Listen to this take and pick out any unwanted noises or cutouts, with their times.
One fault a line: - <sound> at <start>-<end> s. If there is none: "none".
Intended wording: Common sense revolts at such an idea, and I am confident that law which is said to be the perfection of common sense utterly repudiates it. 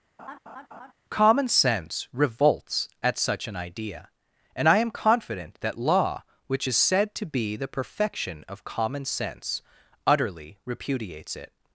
- laugh at 0.2-0.9 s